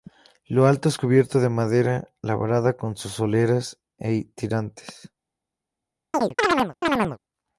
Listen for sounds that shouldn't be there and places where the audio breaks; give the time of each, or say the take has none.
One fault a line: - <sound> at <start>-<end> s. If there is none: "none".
- chirp at 6.1-7.2 s